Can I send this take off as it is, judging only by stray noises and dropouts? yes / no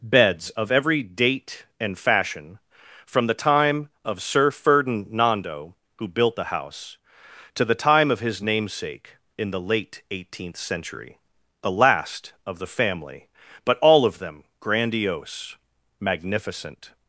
yes